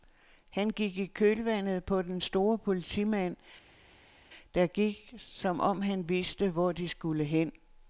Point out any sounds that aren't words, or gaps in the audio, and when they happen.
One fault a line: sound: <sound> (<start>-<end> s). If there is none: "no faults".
no faults